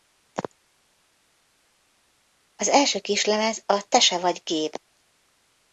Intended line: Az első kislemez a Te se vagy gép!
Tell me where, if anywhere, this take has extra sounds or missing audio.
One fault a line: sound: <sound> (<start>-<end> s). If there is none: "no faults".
no faults